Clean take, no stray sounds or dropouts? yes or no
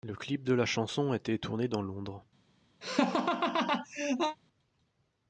no